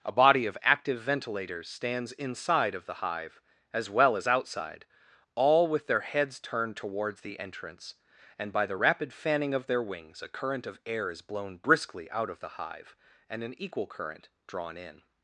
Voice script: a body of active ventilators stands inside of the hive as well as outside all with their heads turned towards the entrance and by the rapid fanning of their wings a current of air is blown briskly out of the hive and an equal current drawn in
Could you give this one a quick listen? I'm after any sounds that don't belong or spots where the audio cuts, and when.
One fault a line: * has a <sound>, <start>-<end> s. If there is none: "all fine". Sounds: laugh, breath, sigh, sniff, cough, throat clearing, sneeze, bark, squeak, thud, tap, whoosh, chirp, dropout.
all fine